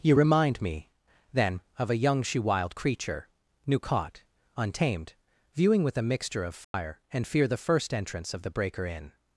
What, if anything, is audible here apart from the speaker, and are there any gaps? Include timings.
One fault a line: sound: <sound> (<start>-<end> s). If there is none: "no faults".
sound: dropout (6.6-6.7 s)